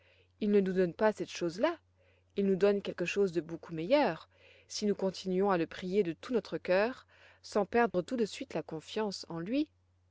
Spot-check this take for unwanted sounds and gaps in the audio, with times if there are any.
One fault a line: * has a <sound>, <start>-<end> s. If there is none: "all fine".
* has a dropout, 7.9-7.9 s